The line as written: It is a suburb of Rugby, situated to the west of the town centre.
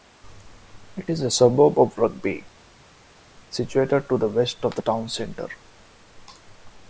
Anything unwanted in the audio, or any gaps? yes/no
no